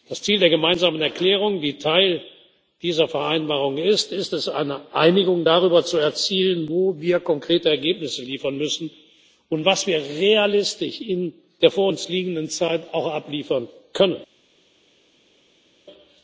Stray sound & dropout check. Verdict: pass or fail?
pass